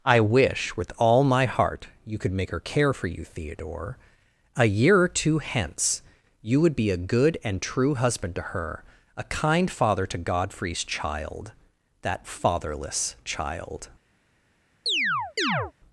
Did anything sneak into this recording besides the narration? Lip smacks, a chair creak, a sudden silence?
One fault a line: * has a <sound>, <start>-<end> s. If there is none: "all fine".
* has a chirp, 14.9-15.7 s